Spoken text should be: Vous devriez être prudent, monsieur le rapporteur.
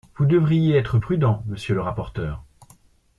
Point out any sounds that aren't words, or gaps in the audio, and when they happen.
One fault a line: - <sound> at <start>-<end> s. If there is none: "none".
none